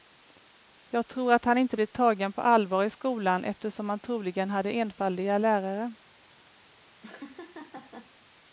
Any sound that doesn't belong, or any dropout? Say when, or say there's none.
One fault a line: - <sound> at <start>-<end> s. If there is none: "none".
- laugh at 7.0-8.1 s